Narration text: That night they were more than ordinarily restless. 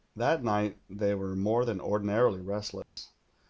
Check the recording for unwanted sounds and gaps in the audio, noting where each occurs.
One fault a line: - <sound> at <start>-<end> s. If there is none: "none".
- dropout at 2.8-3.0 s